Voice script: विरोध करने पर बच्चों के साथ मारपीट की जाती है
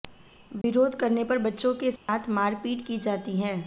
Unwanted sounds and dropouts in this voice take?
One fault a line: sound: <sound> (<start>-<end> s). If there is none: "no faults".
sound: dropout (0.6-0.6 s)
sound: dropout (2.0-2.1 s)